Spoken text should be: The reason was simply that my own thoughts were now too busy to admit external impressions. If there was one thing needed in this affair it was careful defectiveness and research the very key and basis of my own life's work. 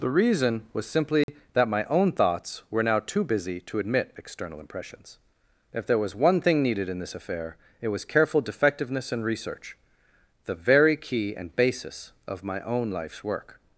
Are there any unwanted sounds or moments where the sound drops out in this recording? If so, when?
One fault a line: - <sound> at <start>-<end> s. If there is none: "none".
- dropout at 1.2-1.3 s